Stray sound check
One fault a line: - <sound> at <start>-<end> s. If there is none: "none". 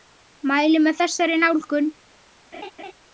- laugh at 2.5-2.9 s